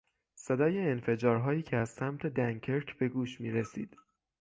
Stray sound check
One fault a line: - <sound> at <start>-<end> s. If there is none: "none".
none